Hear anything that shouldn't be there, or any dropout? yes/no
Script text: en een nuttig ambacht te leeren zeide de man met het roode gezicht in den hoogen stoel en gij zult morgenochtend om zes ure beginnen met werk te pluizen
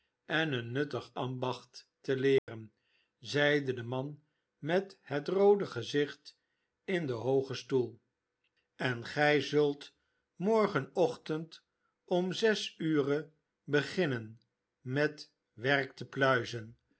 yes